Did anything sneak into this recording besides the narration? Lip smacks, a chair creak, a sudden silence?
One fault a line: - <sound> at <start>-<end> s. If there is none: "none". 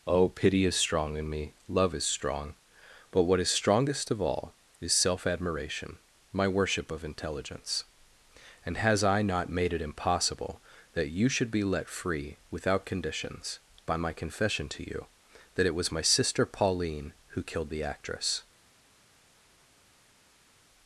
none